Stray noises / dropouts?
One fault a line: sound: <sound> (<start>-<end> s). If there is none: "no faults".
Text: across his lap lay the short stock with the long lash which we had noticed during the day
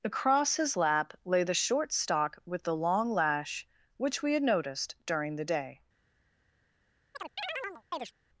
sound: chirp (7.1-8.1 s)